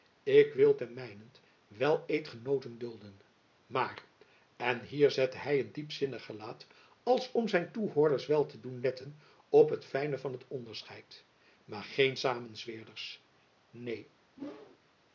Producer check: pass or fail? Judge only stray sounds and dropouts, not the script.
fail